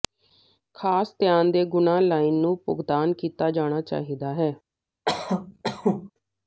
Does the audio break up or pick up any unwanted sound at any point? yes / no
yes